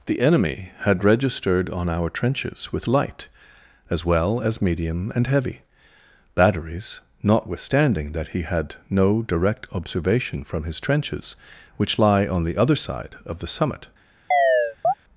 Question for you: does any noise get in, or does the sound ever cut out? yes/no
yes